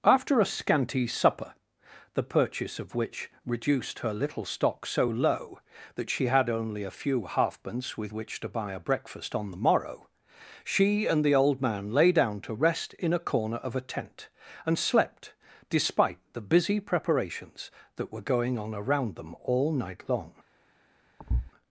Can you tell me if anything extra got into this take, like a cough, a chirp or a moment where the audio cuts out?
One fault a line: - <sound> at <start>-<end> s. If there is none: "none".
- thud at 21.2-21.5 s